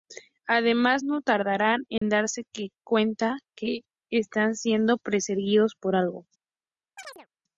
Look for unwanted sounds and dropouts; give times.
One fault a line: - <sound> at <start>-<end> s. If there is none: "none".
- dropout at 2.0-2.0 s
- chirp at 7.0-7.3 s